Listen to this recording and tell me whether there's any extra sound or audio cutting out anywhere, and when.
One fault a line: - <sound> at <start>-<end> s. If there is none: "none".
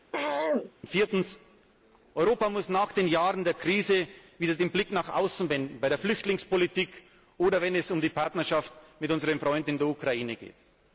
- throat clearing at 0.1-0.7 s